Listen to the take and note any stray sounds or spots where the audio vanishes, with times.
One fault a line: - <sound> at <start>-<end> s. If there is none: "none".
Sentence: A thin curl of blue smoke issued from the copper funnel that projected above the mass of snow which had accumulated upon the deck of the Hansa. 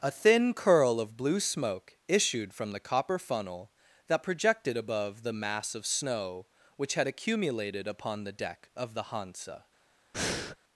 - breath at 10.1-10.6 s